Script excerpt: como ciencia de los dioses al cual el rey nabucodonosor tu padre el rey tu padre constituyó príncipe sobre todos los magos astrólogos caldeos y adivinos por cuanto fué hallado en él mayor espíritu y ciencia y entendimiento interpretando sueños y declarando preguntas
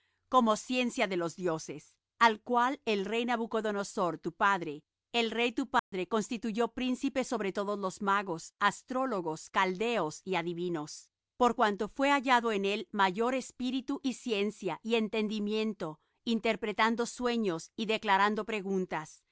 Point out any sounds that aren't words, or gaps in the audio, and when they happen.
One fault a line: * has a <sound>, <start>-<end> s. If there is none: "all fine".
* has a dropout, 5.8-5.9 s